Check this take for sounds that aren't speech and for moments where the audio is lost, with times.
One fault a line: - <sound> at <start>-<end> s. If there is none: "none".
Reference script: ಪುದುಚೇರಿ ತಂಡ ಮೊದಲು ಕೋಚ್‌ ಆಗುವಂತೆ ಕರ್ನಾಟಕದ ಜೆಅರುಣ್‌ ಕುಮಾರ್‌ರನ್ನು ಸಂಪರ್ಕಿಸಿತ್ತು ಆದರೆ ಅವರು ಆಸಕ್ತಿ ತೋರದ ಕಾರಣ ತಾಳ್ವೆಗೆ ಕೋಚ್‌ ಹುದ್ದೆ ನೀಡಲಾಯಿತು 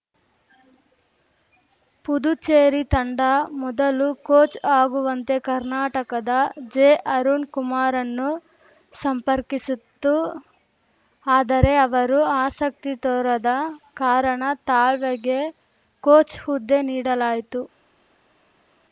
none